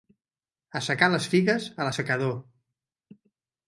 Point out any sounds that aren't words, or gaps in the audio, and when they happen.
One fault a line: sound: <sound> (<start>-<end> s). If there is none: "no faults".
no faults